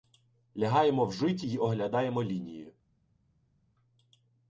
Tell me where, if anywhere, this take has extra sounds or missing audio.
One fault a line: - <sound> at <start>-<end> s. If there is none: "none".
none